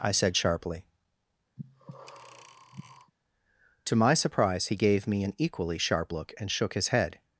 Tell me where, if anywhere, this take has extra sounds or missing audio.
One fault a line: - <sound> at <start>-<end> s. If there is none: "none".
- breath at 1.6-3.1 s